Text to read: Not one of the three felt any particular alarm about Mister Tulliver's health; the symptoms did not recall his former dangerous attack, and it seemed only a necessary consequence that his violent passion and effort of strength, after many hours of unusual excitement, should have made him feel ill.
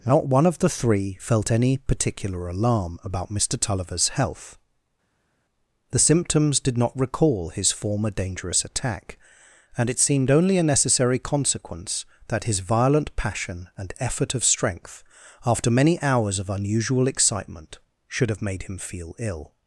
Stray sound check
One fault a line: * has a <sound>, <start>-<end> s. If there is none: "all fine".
all fine